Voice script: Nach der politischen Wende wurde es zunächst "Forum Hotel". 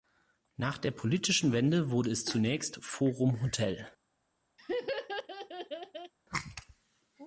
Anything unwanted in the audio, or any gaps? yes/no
yes